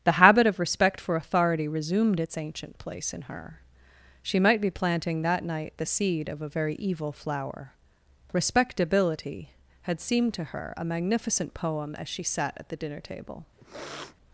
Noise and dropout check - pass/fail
fail